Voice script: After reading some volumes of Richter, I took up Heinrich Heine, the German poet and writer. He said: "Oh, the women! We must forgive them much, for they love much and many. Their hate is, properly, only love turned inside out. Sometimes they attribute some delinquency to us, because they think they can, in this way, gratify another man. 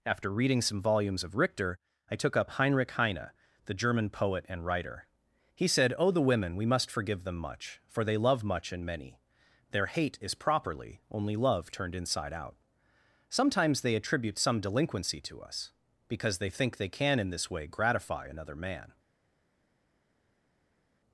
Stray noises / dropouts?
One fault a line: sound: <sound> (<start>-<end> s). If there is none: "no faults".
no faults